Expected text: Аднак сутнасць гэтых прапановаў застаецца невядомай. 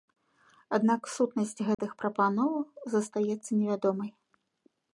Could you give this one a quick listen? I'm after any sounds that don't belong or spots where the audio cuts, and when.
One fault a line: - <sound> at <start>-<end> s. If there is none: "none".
- dropout at 1.7-1.8 s